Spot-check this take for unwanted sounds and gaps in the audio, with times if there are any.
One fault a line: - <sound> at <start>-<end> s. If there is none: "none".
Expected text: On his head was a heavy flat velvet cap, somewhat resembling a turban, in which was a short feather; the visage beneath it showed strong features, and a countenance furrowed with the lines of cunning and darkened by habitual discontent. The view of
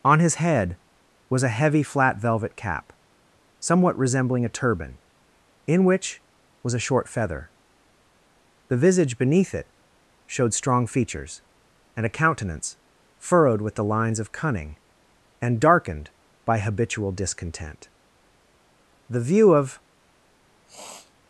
- sniff at 20.7-21.1 s